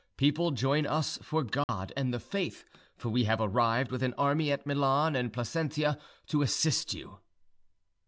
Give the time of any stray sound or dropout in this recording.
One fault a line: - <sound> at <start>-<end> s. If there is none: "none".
- dropout at 1.6-1.7 s